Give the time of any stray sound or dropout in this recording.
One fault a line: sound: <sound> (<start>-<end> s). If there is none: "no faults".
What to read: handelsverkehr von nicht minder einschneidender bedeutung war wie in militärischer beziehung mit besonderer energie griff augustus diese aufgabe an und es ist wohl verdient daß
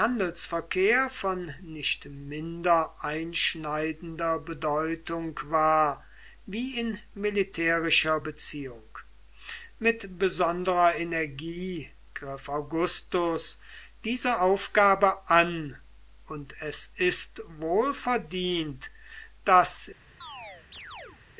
sound: chirp (20.2-21.2 s)